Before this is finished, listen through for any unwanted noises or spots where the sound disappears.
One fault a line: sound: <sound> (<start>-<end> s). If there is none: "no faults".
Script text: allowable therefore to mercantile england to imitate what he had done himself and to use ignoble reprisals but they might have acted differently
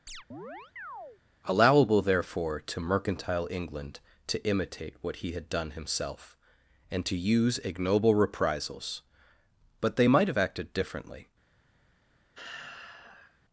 sound: chirp (0.1-1.2 s)
sound: sigh (12.3-13.4 s)